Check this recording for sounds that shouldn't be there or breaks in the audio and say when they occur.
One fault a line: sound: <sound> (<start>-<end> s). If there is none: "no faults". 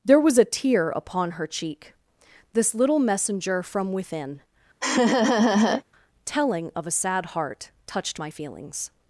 sound: laugh (4.8-5.8 s)